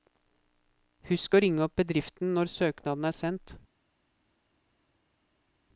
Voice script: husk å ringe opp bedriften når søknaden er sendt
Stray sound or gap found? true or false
false